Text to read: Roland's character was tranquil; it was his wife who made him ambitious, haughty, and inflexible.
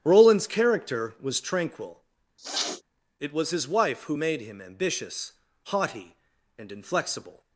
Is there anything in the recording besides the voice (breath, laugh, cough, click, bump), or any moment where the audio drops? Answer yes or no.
yes